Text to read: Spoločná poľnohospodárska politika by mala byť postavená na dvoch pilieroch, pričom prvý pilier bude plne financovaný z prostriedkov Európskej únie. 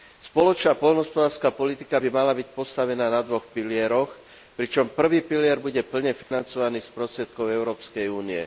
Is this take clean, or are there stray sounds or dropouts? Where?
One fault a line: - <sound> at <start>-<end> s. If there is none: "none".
- dropout at 6.2-6.3 s